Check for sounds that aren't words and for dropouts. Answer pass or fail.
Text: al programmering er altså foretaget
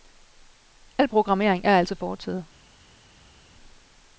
pass